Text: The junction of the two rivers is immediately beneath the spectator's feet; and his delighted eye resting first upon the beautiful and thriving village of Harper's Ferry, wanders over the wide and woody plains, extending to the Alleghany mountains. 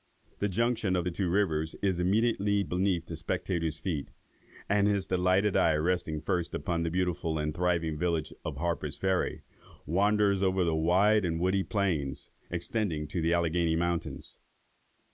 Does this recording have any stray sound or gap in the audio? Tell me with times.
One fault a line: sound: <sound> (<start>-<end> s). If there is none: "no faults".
no faults